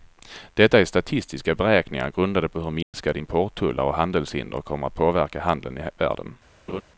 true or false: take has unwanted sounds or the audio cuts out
true